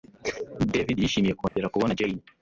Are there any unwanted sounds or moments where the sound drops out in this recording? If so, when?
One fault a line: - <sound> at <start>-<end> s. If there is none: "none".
- dropout at 1.5-1.6 s